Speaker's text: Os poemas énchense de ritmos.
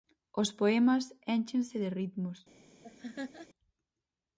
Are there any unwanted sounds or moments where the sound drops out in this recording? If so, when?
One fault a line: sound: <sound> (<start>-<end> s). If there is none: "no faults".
sound: laugh (2.8-3.5 s)